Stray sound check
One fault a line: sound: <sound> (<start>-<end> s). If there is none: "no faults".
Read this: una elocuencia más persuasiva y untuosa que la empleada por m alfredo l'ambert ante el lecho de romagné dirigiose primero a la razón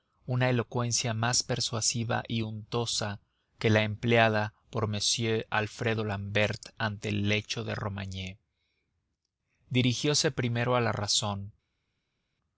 no faults